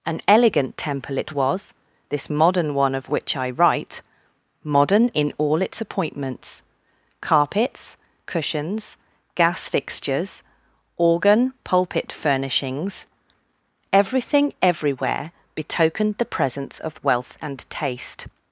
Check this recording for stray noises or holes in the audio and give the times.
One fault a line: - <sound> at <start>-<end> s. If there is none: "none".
none